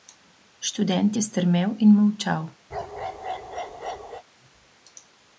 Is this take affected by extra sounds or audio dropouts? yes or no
yes